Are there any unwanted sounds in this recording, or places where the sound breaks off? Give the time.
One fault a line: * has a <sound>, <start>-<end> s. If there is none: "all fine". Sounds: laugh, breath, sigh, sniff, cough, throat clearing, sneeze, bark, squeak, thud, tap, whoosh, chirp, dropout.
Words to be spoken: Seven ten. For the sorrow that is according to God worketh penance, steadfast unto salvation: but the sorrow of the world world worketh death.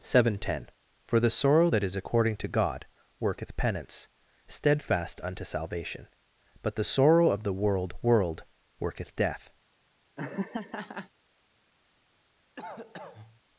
* has a laugh, 10.2-11.1 s
* has a cough, 12.6-13.4 s